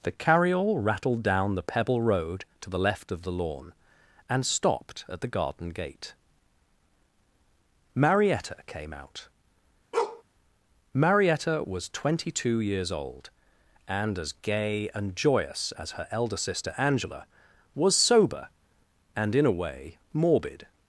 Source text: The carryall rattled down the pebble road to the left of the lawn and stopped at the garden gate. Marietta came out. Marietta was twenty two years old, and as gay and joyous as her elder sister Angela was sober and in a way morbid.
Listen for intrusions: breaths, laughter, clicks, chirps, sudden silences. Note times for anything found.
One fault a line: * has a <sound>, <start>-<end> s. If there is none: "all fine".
* has a bark, 9.9-10.2 s